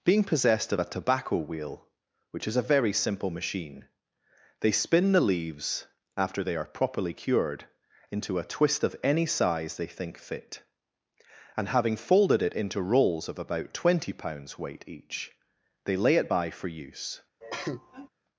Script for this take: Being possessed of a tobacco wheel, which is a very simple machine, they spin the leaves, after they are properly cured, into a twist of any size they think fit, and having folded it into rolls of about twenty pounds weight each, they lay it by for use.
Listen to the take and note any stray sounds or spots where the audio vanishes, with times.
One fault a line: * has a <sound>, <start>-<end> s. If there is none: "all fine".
* has a cough, 17.4-18.1 s